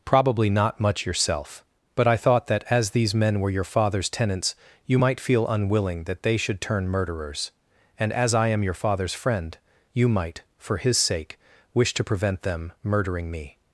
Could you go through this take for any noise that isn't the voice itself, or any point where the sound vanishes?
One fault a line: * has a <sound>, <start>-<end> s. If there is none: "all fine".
all fine